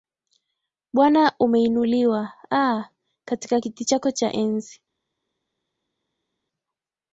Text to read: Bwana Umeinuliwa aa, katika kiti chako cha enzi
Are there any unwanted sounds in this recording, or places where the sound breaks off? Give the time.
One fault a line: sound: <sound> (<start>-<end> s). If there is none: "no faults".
no faults